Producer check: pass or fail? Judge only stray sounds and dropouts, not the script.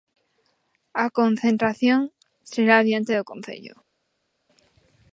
pass